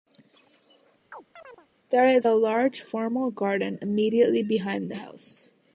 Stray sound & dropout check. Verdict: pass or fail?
fail